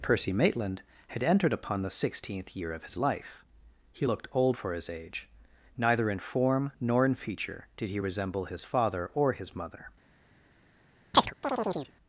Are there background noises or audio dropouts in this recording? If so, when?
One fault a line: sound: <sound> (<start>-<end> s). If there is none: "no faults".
sound: chirp (11.1-11.9 s)